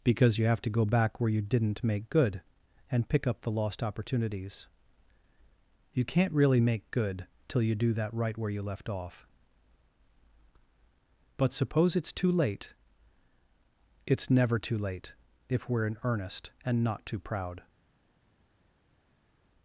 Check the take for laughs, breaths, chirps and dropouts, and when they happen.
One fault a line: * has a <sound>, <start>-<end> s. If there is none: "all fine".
all fine